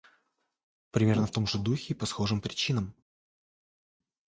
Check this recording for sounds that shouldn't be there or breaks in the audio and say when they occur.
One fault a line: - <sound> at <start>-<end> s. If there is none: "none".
none